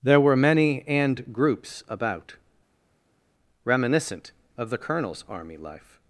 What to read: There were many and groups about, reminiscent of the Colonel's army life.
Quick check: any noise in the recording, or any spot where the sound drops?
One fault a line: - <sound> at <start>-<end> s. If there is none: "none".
none